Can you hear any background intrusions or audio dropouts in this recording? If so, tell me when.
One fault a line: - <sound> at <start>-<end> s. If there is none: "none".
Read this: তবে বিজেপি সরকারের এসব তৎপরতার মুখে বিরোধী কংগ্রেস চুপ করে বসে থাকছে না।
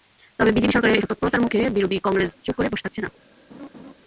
- laugh at 3.5-3.9 s